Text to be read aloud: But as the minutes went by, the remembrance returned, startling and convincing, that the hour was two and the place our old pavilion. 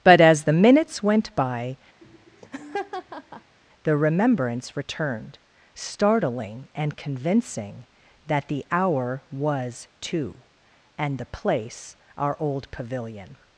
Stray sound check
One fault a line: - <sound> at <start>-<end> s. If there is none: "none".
- laugh at 2.0-3.6 s